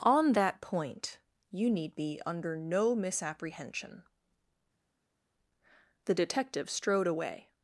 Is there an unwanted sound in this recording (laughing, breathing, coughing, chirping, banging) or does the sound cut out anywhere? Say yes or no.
no